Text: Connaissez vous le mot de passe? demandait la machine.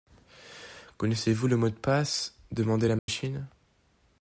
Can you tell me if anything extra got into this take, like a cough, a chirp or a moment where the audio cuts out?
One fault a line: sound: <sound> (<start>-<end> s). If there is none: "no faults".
sound: dropout (3.0-3.1 s)